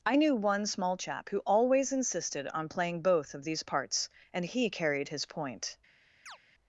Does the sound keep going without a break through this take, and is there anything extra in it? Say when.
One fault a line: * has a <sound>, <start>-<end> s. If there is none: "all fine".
* has a chirp, 6.3-6.4 s